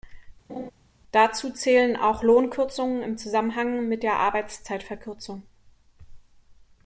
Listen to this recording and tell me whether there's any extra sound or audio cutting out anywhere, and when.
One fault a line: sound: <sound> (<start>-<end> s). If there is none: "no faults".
sound: laugh (0.5-0.7 s)